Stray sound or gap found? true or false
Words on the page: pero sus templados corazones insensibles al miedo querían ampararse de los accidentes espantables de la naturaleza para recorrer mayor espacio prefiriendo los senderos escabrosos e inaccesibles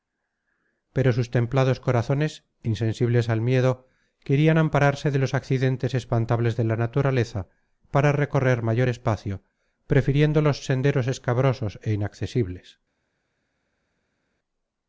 false